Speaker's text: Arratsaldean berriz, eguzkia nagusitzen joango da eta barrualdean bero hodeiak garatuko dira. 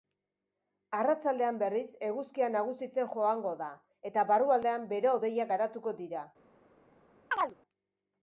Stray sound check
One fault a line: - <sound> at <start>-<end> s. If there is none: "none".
- chirp at 7.3-7.6 s